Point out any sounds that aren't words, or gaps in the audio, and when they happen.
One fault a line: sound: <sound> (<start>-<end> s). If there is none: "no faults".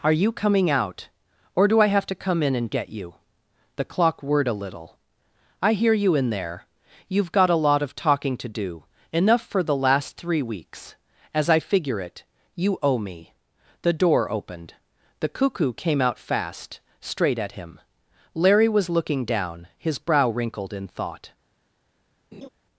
sound: laugh (22.3-22.5 s)